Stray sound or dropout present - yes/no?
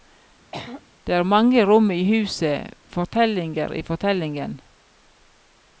yes